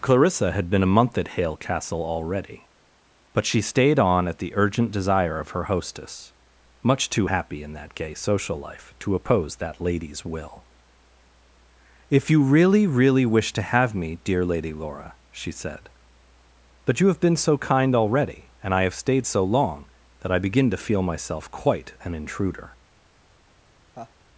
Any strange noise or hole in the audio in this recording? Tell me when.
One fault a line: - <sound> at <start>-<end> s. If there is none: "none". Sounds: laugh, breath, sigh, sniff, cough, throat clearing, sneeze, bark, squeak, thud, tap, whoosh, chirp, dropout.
- laugh at 23.9-24.1 s